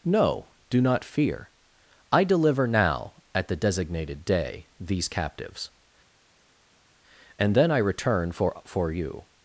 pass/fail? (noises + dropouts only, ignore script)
pass